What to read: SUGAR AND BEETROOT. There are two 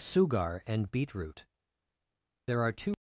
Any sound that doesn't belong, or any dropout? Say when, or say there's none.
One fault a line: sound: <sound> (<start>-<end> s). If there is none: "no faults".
no faults